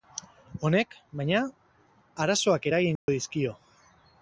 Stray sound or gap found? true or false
true